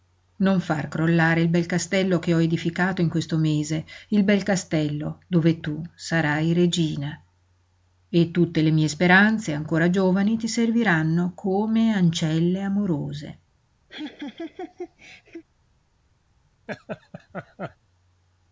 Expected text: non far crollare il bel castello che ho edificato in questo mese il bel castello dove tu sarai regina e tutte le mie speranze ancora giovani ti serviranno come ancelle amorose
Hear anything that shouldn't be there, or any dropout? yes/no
yes